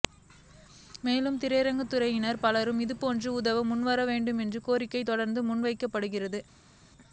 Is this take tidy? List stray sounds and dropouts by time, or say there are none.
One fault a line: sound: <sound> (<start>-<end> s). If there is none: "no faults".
no faults